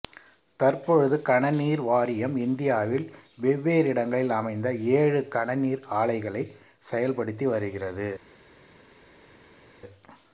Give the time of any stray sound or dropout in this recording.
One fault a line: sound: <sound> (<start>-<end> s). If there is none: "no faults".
no faults